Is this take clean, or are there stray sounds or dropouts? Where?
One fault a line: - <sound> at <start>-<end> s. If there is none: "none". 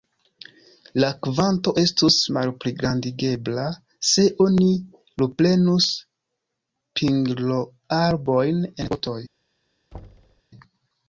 - thud at 9.9-10.4 s